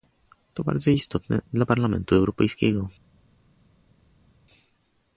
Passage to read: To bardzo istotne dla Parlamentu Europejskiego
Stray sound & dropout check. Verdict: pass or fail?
pass